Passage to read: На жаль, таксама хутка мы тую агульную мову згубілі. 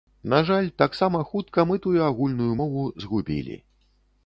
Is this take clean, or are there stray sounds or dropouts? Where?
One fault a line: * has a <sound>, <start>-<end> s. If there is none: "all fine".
all fine